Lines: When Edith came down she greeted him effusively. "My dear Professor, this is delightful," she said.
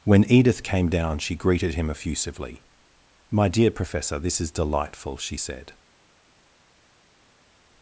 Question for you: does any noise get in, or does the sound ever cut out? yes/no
no